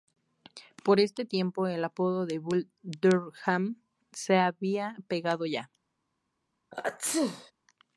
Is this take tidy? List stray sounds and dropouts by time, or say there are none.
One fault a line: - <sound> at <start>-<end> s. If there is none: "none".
- sneeze at 6.7-7.5 s